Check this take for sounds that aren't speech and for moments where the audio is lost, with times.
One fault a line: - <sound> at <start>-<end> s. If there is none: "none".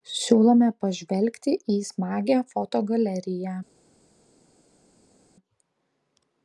none